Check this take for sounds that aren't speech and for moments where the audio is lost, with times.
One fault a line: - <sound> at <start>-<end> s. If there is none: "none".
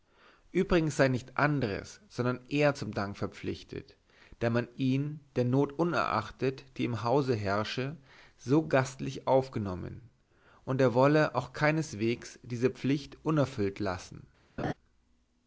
- laugh at 14.6-14.7 s